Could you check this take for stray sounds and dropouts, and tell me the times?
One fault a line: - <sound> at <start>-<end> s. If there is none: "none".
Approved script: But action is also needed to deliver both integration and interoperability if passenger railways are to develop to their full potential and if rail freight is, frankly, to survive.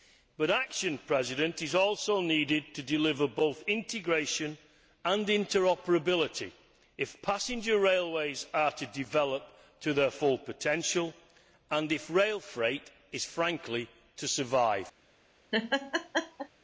- laugh at 15.5-16.5 s